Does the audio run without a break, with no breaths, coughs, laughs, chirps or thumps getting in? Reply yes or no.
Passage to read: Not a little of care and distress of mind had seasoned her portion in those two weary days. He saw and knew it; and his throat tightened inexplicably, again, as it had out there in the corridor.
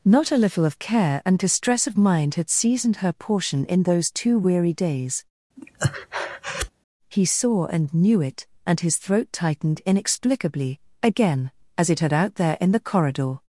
no